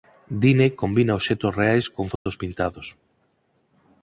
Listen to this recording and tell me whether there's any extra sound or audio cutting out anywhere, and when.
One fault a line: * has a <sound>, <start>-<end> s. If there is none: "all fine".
* has a dropout, 2.2-2.3 s